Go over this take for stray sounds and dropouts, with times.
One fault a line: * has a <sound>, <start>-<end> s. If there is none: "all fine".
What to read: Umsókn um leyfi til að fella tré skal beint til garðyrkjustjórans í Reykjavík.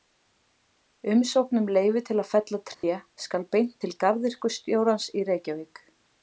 * has a dropout, 2.7-2.8 s